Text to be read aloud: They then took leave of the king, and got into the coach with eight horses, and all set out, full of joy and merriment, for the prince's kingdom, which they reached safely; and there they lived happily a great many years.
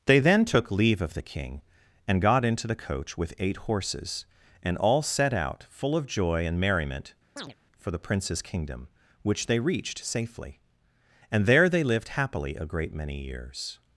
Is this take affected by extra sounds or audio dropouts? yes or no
yes